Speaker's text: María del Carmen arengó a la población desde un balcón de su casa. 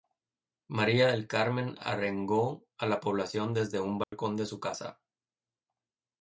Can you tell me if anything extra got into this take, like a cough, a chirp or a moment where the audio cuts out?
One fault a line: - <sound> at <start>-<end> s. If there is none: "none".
- dropout at 4.0-4.1 s